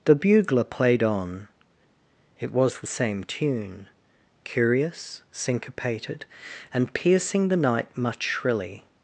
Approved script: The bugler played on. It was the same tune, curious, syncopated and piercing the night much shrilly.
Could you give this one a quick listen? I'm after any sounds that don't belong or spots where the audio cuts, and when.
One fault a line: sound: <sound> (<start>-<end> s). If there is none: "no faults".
no faults